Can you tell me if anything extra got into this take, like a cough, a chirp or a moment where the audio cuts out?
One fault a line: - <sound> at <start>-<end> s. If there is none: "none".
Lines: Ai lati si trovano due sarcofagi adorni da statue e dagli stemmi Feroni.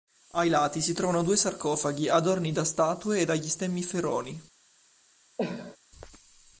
- cough at 5.4-5.8 s